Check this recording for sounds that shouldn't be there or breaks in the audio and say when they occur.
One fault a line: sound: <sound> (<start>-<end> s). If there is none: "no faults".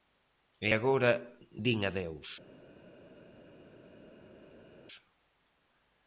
no faults